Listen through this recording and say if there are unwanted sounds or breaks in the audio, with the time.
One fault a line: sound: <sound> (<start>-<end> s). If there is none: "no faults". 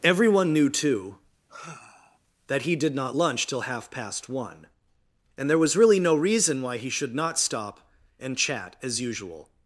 sound: sigh (1.5-2.2 s)